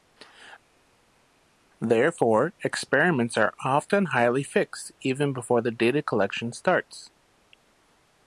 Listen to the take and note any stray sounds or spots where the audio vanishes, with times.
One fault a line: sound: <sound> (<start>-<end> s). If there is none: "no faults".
no faults